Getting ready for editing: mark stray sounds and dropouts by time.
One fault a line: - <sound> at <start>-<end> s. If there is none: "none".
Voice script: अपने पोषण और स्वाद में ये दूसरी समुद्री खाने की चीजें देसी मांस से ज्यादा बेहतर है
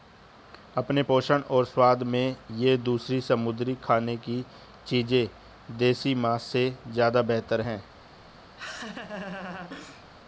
- laugh at 8.6-10.1 s